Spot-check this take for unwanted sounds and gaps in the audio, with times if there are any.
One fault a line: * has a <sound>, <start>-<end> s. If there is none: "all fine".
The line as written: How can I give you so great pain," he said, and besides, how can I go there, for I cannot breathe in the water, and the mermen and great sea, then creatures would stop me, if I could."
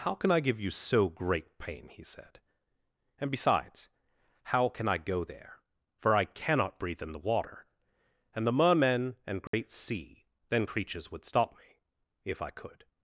* has a dropout, 9.5-9.5 s